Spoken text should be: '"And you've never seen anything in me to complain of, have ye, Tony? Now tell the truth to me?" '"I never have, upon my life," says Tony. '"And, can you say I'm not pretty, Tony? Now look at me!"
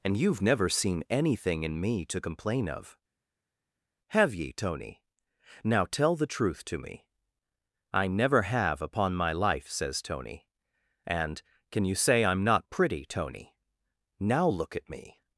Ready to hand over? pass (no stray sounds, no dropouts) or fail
pass